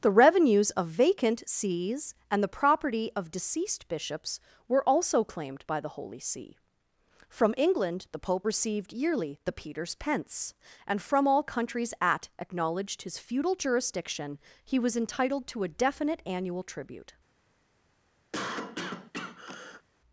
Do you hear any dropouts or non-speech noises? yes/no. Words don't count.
yes